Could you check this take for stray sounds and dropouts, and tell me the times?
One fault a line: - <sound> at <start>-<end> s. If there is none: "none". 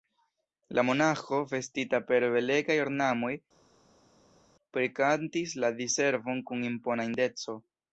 none